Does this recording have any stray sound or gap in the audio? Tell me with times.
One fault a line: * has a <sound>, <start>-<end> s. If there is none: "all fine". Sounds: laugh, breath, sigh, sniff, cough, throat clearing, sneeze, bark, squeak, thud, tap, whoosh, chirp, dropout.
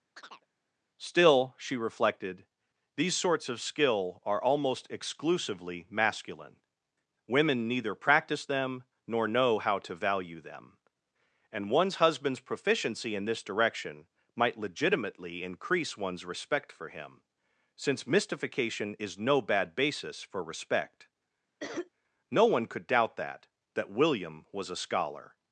* has a chirp, 0.2-0.5 s
* has a cough, 21.6-21.9 s